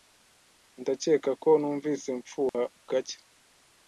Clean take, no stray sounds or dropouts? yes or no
no